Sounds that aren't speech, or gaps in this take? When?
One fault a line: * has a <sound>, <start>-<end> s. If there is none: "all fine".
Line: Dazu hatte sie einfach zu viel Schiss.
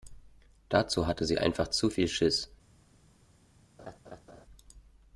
* has a laugh, 3.8-4.5 s